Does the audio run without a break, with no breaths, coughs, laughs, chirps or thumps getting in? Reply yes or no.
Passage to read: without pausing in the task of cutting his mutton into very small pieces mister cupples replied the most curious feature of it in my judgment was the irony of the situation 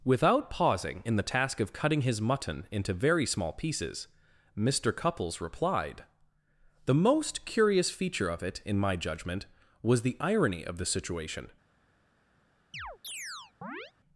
no